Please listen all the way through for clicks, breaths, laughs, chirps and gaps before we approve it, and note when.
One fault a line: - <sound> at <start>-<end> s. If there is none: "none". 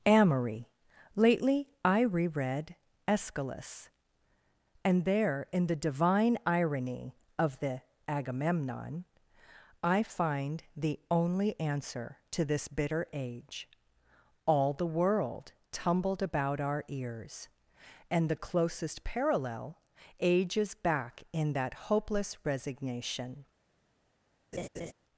- laugh at 24.5-24.9 s